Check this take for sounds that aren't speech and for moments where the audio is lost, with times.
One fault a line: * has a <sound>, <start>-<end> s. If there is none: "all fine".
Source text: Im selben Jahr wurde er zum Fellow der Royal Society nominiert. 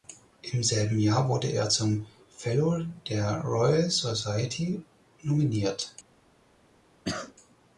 * has a cough, 7.0-7.3 s